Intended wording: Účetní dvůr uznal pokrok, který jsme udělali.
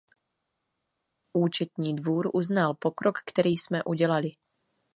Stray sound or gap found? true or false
false